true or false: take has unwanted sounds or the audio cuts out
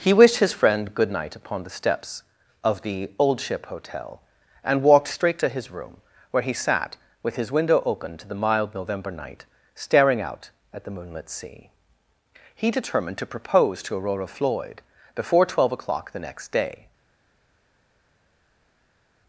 false